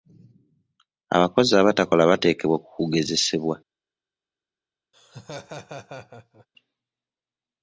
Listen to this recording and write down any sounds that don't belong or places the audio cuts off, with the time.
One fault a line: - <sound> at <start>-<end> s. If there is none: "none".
- laugh at 4.9-6.5 s